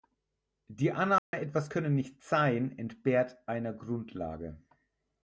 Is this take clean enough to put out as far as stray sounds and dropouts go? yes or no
no